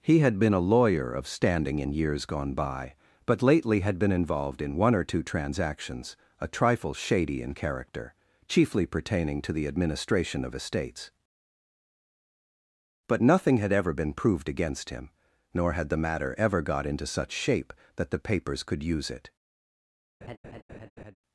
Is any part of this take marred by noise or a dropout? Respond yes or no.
yes